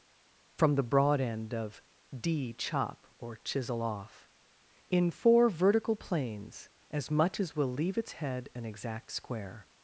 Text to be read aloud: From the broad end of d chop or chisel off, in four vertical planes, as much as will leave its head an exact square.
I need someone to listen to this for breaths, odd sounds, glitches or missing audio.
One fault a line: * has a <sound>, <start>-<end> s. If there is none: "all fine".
all fine